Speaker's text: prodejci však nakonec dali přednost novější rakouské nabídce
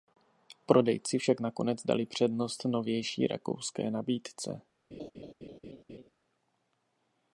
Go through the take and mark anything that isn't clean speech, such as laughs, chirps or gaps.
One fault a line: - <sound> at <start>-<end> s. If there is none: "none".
- laugh at 4.9-6.1 s